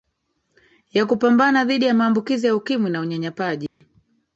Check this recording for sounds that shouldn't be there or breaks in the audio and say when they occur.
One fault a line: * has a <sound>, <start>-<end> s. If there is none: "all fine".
* has a dropout, 3.7-3.8 s